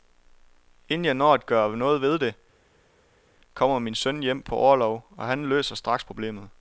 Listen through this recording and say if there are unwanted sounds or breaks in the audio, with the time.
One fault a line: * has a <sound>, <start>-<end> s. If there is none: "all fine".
all fine